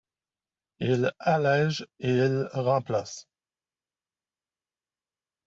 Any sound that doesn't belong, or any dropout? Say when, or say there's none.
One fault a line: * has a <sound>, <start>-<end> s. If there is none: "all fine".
all fine